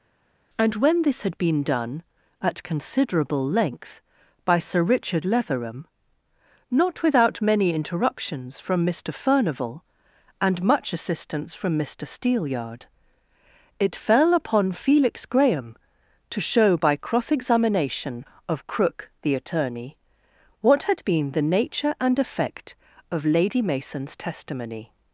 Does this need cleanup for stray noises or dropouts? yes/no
no